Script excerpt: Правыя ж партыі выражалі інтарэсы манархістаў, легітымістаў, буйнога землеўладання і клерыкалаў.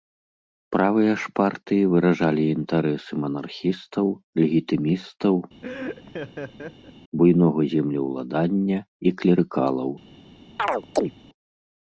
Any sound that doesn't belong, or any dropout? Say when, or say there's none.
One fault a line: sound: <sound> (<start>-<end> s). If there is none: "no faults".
sound: laugh (5.6-6.9 s)
sound: chirp (10.6-11.1 s)